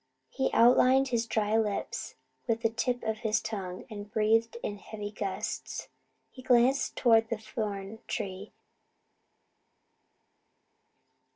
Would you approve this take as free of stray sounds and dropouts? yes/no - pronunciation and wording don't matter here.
yes